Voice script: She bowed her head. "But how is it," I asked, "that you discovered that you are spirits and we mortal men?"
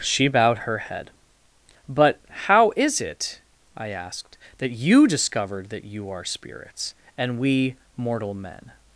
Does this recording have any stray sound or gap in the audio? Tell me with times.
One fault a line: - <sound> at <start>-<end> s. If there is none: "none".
none